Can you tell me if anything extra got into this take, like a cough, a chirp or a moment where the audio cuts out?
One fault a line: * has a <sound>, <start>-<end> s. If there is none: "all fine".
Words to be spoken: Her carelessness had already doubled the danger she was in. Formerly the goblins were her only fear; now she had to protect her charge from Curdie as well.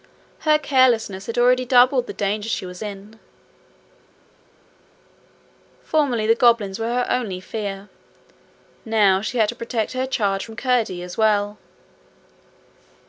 all fine